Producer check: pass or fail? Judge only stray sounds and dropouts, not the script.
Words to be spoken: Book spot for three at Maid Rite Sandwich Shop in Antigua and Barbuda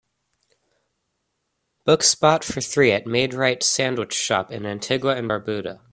pass